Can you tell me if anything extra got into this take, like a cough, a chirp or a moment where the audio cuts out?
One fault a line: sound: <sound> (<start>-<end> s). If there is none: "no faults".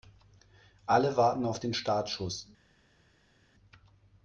no faults